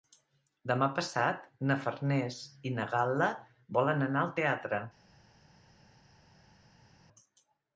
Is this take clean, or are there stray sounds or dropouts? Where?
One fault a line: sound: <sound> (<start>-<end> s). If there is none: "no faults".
no faults